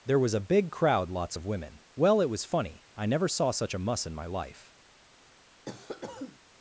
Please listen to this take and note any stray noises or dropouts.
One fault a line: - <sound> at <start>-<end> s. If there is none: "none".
- cough at 5.7-6.4 s